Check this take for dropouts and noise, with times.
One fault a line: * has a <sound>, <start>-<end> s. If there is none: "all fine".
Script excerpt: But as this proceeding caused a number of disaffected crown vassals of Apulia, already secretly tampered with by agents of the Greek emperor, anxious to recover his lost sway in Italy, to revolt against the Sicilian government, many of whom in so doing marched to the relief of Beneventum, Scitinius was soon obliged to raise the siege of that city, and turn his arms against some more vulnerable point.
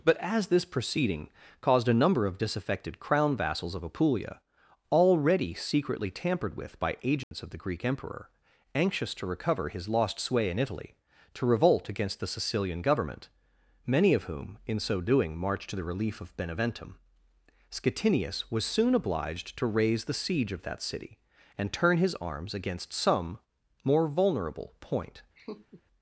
* has a dropout, 7.2-7.3 s
* has a laugh, 25.4-25.8 s